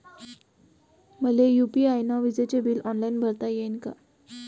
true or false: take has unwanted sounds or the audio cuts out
false